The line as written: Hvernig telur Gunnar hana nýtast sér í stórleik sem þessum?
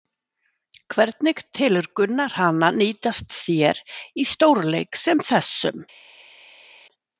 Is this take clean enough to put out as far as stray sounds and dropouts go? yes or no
yes